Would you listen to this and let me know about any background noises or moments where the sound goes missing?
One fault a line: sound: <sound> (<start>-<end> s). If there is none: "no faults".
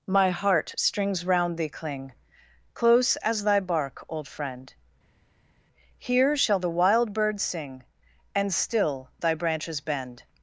no faults